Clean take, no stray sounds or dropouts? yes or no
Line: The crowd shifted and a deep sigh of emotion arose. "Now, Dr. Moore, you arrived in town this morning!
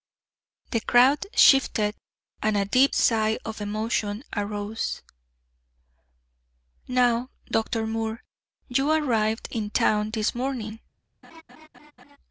no